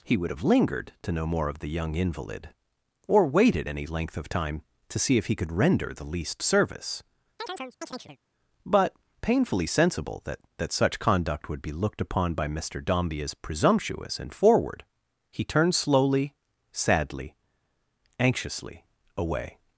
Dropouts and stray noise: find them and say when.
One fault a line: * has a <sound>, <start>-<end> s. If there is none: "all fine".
* has a chirp, 7.4-8.2 s